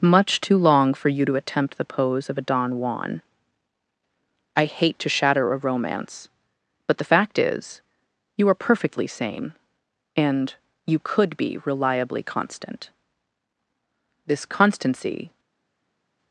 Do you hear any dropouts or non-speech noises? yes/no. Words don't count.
no